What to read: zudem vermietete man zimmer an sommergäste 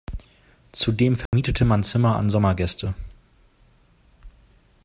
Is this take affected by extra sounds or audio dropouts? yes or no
yes